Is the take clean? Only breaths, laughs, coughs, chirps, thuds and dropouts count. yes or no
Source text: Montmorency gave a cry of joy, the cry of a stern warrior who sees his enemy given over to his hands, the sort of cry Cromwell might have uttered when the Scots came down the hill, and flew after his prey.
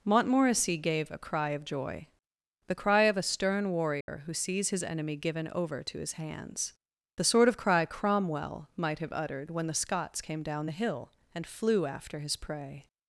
no